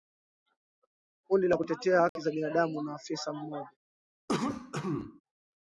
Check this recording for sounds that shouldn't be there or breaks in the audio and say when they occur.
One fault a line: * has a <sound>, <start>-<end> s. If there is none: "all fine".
* has a dropout, 2.1-2.2 s
* has a cough, 4.3-5.2 s